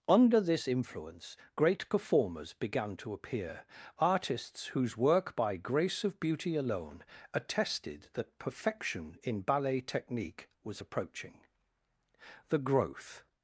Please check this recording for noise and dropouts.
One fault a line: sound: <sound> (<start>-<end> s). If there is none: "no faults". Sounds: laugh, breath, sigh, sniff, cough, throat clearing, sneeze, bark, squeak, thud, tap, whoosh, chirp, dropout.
no faults